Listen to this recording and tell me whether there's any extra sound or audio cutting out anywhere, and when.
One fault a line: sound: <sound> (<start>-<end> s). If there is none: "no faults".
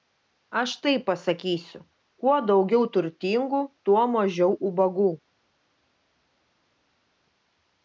no faults